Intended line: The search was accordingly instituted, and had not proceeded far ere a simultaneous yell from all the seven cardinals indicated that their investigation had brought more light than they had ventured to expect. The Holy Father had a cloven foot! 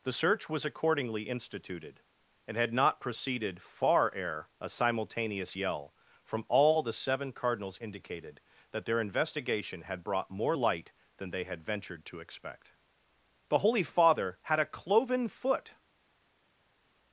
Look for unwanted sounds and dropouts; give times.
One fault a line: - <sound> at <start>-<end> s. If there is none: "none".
none